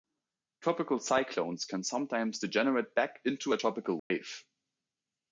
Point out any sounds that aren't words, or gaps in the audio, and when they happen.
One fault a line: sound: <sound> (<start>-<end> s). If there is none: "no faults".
sound: dropout (4.0-4.1 s)